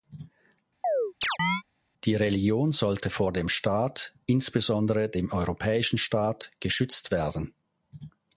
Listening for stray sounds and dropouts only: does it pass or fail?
fail